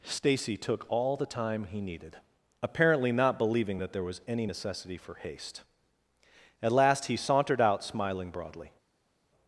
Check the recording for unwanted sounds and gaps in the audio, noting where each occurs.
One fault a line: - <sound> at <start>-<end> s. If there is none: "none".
none